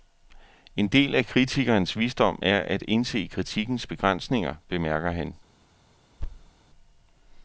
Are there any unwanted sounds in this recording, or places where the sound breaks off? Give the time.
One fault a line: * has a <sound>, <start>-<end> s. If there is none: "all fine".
* has a thud, 6.2-6.5 s